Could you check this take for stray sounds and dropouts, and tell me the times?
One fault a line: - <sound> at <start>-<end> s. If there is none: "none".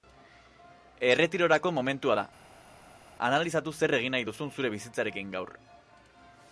none